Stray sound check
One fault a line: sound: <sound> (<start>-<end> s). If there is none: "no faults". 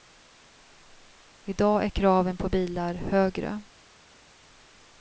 no faults